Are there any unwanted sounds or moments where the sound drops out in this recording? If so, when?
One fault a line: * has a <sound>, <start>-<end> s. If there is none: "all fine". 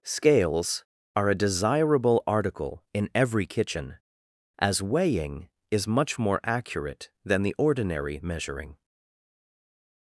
all fine